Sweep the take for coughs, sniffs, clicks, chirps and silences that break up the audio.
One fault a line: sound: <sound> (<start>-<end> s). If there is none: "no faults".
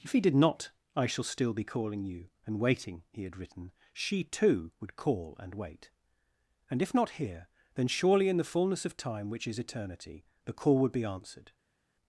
no faults